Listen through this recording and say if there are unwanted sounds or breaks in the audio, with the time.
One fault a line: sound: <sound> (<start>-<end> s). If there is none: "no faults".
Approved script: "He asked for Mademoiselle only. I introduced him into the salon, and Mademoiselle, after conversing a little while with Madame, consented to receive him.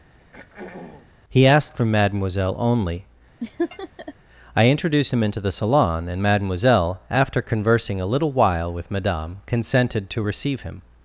sound: throat clearing (0.2-1.1 s)
sound: laugh (3.4-4.1 s)